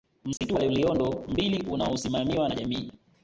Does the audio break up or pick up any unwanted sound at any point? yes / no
yes